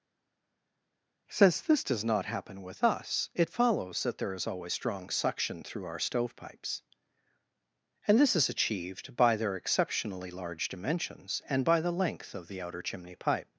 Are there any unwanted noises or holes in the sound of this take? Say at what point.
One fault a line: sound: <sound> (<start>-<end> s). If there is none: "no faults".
no faults